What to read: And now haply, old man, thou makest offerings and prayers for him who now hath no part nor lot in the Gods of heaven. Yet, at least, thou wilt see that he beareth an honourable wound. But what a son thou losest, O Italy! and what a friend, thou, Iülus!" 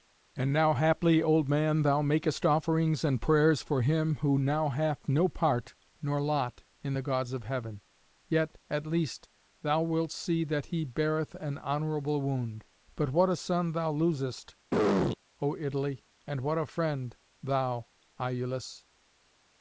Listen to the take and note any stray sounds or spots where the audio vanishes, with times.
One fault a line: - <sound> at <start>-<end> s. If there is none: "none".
- throat clearing at 14.7-15.2 s